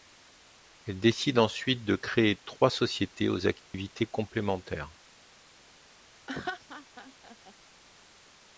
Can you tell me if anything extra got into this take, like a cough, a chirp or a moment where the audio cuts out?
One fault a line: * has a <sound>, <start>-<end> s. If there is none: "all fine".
* has a dropout, 3.6-3.7 s
* has a laugh, 6.3-7.5 s